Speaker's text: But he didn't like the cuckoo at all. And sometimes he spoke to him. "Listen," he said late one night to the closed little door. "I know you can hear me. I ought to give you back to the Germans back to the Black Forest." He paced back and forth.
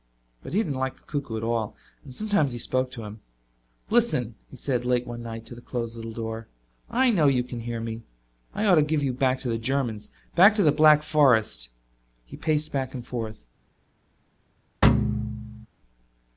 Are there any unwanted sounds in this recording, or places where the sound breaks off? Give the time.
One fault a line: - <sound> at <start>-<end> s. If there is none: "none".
- thud at 14.8-15.7 s